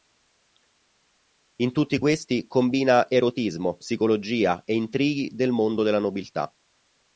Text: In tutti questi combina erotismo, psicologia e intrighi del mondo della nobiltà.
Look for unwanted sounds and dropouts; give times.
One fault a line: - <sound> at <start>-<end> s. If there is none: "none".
none